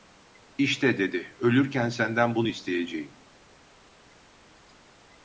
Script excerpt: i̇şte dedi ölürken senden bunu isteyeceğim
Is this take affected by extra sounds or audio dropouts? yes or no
no